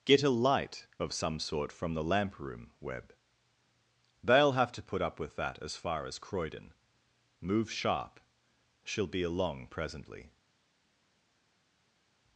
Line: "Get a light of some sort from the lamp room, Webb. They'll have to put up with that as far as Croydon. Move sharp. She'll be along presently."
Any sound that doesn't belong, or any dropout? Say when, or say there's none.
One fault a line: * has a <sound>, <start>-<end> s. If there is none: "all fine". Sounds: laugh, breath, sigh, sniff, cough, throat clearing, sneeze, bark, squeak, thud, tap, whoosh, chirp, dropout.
all fine